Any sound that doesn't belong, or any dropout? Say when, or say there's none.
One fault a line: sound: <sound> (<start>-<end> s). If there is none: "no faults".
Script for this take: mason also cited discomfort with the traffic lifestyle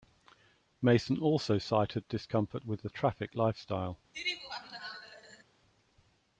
sound: laugh (4.1-5.4 s)